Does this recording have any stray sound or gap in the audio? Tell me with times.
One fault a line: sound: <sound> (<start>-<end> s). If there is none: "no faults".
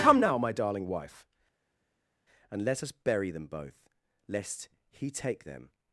no faults